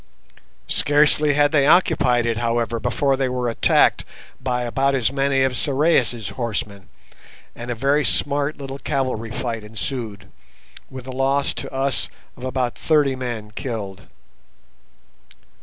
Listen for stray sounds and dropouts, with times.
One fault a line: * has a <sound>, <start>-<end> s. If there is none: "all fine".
all fine